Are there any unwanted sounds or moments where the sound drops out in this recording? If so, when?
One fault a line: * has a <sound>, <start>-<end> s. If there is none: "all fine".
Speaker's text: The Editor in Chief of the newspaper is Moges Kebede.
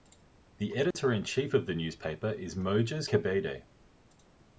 * has a dropout, 0.9-0.9 s